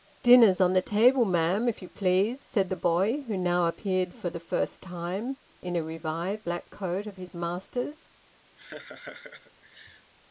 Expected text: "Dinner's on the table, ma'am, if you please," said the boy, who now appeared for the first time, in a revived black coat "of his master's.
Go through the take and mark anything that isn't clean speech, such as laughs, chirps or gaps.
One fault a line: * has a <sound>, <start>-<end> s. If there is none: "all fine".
* has a laugh, 8.6-10.1 s